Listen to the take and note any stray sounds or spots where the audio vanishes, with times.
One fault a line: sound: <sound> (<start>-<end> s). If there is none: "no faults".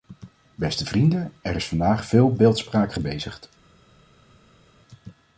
no faults